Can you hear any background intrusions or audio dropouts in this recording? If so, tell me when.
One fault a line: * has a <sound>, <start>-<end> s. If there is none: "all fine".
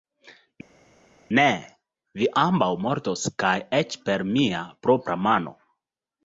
all fine